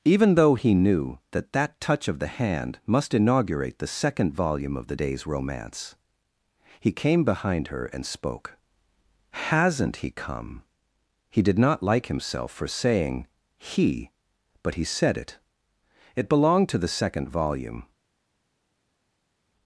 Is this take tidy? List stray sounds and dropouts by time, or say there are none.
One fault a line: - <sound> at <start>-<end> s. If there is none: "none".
none